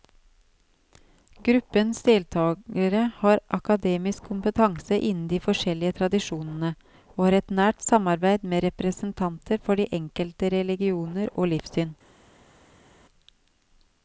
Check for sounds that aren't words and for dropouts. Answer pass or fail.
pass